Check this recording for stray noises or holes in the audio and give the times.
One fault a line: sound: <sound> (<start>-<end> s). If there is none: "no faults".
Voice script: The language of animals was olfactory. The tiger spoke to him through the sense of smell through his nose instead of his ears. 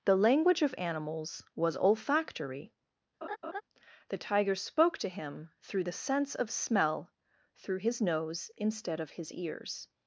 sound: laugh (3.2-3.6 s)